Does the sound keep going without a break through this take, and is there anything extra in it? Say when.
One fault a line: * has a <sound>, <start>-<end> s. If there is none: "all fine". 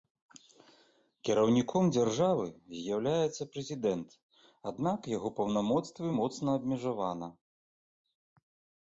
all fine